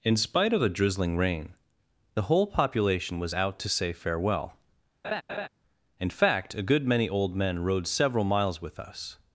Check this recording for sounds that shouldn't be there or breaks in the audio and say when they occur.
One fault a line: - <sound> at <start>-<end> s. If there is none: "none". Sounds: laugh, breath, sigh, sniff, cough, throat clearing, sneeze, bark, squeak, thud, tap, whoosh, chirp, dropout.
- laugh at 5.0-5.5 s